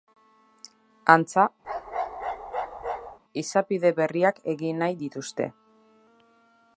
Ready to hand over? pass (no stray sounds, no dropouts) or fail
fail